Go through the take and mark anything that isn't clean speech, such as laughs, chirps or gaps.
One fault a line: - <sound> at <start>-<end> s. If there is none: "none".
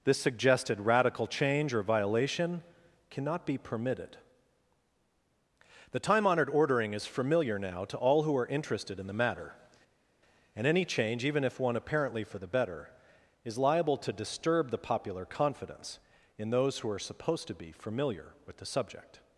none